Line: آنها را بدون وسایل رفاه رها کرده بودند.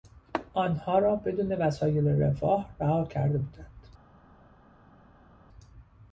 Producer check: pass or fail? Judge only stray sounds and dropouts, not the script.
pass